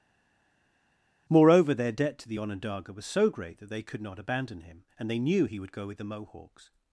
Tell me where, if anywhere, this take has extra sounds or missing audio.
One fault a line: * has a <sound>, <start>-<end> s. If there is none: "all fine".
all fine